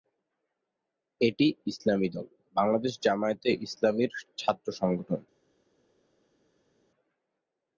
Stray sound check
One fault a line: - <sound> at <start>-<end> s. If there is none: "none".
none